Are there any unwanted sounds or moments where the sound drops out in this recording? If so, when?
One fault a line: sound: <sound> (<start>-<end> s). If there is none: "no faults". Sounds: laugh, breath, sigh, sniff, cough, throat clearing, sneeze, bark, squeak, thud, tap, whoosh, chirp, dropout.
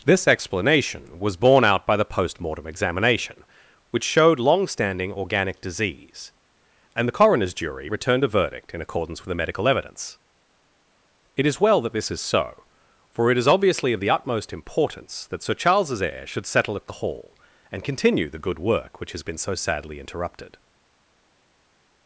no faults